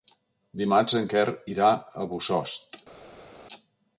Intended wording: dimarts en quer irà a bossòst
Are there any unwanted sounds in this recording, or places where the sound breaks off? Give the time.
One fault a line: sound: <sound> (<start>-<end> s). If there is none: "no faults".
no faults